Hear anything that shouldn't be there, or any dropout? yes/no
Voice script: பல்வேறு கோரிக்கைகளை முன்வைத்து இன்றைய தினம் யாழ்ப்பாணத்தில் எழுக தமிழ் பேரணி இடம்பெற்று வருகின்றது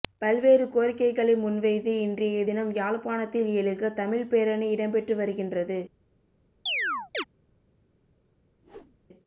yes